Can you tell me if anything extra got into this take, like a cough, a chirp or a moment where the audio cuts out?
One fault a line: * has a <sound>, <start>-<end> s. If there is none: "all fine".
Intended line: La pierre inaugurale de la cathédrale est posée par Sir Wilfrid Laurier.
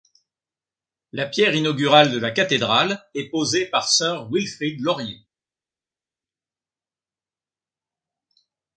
all fine